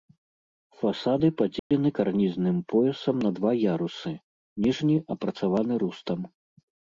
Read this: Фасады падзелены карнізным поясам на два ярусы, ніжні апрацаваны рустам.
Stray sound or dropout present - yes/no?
yes